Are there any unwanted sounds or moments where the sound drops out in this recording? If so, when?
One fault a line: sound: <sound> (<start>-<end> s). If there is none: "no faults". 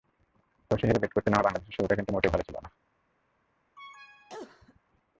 sound: cough (3.8-4.8 s)